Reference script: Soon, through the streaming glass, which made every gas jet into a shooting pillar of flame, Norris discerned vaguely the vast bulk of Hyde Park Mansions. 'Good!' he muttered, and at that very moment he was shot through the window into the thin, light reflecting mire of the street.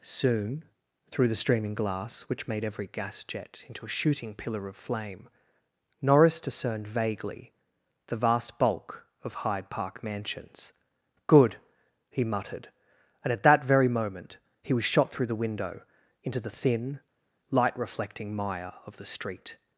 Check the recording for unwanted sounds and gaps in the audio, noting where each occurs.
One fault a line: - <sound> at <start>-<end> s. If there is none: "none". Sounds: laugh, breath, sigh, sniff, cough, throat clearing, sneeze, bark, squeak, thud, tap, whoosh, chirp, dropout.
none